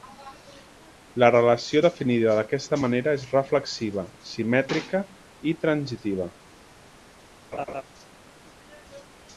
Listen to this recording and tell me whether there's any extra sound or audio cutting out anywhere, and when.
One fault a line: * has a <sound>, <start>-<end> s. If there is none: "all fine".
* has a laugh, 7.5-7.8 s